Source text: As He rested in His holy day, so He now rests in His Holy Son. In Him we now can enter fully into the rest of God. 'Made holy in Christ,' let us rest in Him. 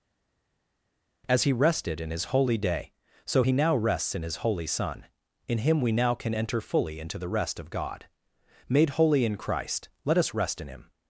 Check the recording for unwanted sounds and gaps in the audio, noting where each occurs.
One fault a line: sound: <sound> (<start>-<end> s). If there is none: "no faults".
no faults